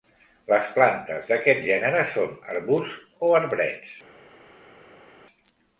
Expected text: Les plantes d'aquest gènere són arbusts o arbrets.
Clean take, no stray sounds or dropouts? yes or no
yes